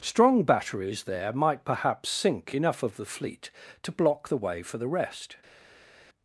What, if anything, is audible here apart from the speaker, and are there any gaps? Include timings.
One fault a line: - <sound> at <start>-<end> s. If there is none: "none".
none